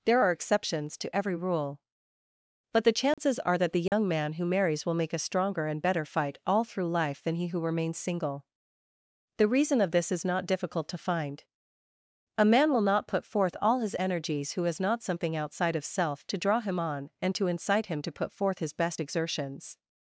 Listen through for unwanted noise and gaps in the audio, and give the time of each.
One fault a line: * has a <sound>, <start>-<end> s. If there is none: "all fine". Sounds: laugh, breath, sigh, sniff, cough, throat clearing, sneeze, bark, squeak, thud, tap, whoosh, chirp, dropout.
* has a dropout, 3.1-3.2 s
* has a dropout, 3.9-3.9 s